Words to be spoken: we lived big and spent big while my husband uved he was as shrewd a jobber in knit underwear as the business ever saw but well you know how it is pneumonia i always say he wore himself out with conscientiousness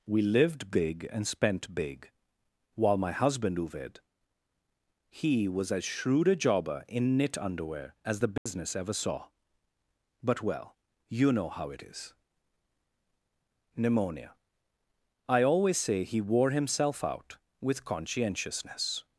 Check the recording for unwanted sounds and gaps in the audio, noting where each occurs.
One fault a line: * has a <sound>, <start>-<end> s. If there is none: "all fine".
* has a dropout, 8.4-8.5 s